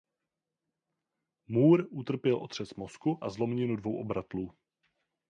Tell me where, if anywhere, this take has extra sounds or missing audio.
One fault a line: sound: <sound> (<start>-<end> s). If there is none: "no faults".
no faults